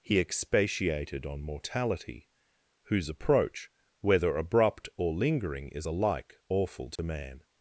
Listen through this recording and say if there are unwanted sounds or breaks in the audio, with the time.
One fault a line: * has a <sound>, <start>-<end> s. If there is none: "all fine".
* has a dropout, 7.0-7.0 s